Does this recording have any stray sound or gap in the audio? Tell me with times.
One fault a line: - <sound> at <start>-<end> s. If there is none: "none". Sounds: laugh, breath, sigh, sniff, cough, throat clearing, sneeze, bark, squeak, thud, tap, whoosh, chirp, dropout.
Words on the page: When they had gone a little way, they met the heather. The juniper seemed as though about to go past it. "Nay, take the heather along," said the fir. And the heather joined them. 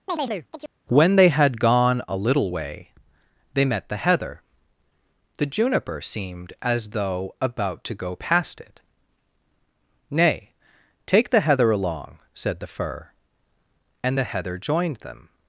- chirp at 0.1-0.7 s